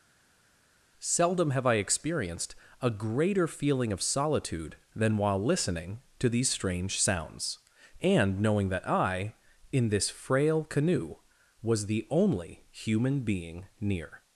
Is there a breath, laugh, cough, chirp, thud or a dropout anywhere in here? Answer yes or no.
no